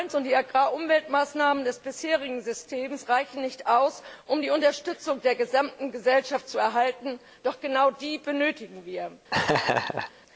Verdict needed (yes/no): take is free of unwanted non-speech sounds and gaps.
no